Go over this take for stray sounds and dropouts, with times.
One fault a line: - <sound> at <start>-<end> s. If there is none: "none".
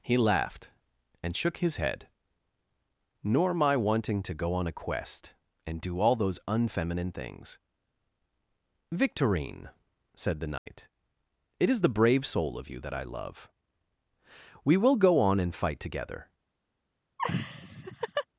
- dropout at 10.6-10.7 s
- laugh at 17.2-18.3 s